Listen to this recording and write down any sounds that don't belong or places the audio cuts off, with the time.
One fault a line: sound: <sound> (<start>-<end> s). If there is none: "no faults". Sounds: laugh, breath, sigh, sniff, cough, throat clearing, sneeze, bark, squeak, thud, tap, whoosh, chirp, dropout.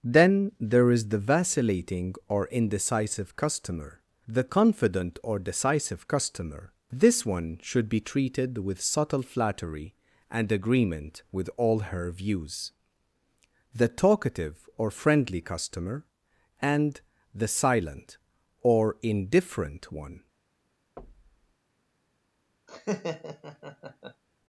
sound: thud (21.0-21.5 s)
sound: laugh (22.7-24.2 s)